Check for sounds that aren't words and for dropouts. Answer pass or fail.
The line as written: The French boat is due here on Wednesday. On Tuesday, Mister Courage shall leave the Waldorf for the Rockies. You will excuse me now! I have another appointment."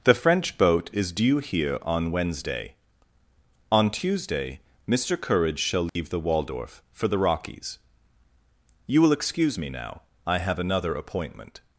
fail